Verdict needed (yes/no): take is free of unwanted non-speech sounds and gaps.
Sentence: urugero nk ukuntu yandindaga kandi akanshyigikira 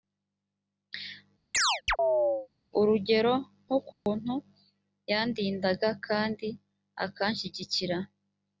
no